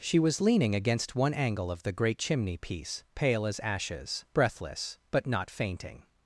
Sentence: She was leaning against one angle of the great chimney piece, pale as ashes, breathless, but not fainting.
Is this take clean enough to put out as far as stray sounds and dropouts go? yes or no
yes